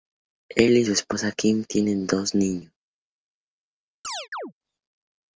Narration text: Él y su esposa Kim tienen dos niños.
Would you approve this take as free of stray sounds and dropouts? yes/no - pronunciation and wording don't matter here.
no